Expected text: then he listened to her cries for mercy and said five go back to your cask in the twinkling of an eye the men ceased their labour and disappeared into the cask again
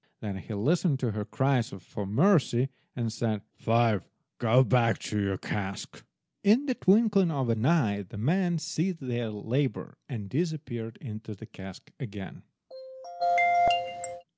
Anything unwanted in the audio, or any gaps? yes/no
yes